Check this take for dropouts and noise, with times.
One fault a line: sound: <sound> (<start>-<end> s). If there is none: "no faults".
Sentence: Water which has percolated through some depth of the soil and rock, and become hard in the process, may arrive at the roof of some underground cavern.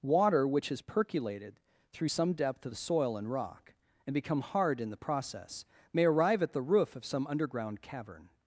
no faults